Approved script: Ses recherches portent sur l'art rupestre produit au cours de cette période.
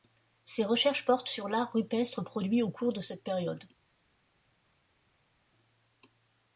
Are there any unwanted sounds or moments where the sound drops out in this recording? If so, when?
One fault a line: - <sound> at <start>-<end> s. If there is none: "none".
none